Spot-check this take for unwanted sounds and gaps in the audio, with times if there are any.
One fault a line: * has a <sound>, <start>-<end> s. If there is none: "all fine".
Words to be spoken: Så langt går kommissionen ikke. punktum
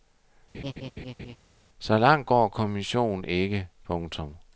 * has a laugh, 0.5-1.4 s